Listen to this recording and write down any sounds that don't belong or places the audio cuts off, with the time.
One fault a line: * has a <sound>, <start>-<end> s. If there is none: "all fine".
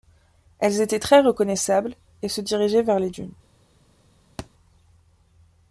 * has a thud, 4.4-4.5 s